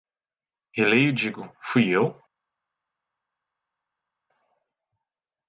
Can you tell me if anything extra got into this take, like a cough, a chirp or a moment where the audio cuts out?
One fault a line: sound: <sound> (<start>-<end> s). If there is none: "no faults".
no faults